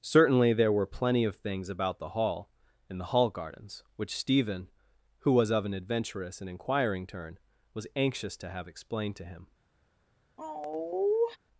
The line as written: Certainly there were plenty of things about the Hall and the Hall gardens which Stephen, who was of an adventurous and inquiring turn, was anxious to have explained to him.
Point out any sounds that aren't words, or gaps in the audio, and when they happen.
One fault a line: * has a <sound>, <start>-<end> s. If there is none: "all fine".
* has a sigh, 10.4-11.4 s